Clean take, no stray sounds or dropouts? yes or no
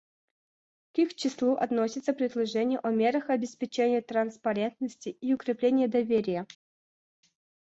yes